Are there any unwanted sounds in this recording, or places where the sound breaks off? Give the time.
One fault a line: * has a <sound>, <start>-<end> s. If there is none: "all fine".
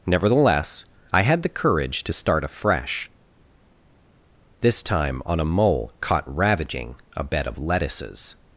all fine